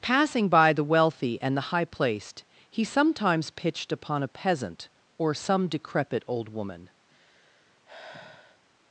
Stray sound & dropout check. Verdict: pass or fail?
fail